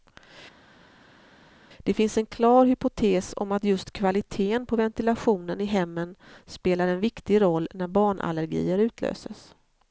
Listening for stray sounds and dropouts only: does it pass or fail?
pass